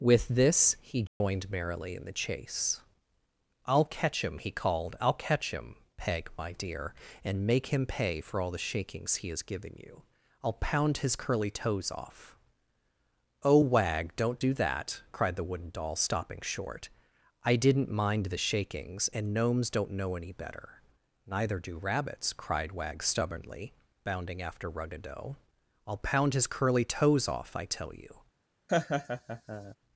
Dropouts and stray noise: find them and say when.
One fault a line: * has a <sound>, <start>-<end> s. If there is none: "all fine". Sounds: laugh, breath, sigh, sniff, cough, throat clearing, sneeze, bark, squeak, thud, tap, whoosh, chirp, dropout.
* has a dropout, 1.1-1.2 s
* has a laugh, 28.7-29.8 s